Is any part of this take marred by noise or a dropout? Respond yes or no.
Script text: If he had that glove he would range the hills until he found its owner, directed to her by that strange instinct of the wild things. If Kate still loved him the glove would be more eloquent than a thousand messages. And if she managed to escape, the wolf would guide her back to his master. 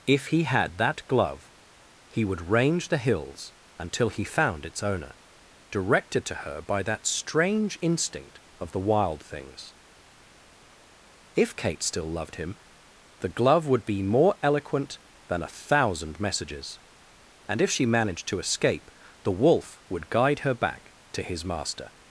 no